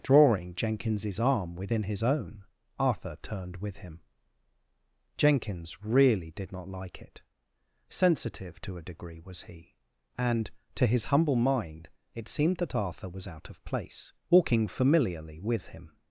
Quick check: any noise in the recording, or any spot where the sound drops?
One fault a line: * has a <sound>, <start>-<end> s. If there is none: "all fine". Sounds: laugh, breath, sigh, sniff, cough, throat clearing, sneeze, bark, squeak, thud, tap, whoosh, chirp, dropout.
all fine